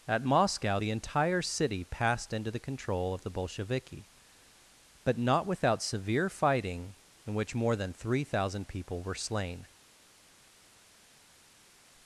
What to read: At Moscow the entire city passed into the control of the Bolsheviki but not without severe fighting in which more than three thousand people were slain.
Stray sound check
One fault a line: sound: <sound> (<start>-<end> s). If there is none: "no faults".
no faults